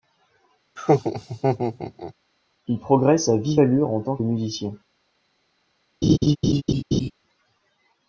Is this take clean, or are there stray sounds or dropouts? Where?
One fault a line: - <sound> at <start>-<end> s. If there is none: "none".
- laugh at 0.8-2.1 s
- laugh at 6.0-7.1 s